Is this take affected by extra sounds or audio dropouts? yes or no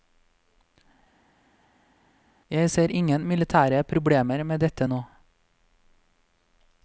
no